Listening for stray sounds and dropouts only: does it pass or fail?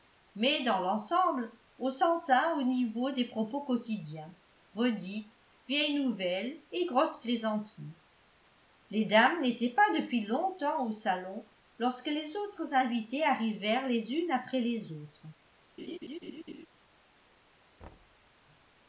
fail